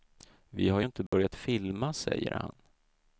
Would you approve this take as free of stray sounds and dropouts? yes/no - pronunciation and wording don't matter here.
no